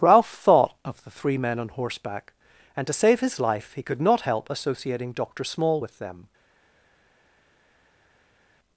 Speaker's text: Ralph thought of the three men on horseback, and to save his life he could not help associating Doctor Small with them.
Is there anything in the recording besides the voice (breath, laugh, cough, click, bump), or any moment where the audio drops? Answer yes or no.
no